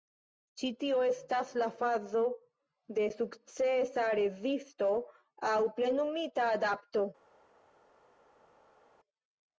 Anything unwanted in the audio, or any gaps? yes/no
no